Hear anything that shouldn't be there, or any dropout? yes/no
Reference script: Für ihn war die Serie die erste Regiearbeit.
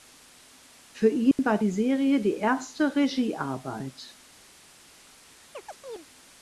yes